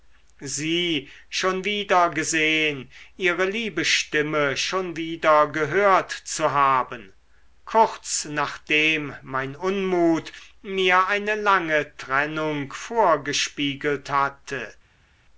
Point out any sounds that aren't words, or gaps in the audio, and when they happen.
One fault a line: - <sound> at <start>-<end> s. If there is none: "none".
none